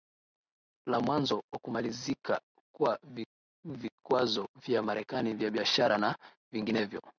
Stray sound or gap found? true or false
false